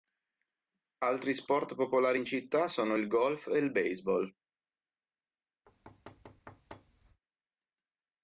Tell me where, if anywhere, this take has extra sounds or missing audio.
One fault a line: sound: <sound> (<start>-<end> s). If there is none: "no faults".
sound: thud (5.7-7.2 s)